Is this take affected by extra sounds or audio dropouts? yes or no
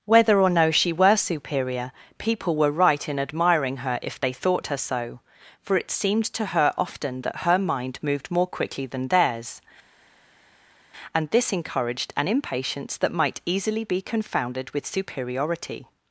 no